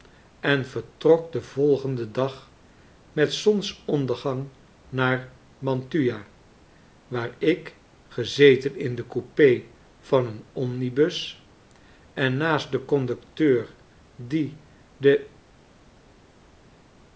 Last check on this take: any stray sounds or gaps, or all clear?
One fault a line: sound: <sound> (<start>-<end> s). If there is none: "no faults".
no faults